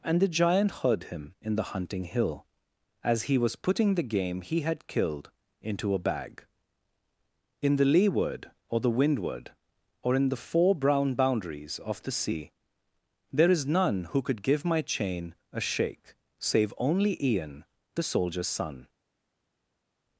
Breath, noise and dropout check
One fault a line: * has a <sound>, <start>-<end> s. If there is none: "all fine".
all fine